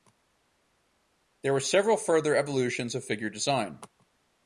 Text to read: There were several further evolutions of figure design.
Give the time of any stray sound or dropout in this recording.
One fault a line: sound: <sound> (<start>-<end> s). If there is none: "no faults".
no faults